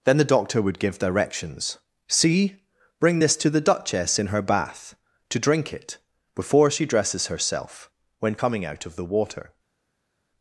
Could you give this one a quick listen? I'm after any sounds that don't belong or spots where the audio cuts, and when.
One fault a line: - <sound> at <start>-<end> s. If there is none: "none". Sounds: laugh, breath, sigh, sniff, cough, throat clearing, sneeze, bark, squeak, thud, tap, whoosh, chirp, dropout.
none